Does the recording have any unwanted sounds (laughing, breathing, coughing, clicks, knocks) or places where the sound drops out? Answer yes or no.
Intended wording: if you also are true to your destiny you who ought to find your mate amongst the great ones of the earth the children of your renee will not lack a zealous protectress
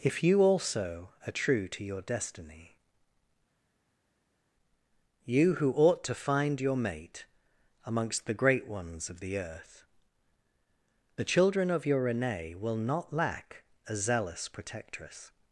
no